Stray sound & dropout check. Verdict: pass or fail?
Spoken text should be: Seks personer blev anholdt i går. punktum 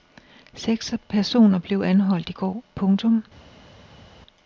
pass